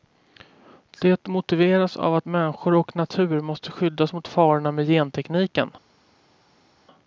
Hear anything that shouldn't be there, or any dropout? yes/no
no